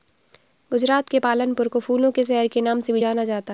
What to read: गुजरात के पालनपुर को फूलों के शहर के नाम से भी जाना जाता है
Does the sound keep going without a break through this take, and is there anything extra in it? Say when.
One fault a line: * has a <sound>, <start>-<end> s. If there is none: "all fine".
all fine